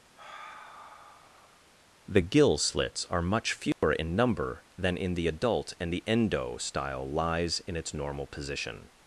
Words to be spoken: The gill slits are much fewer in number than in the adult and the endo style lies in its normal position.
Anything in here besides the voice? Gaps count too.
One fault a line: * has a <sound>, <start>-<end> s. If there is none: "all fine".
* has a sigh, 0.2-1.7 s
* has a dropout, 3.7-3.8 s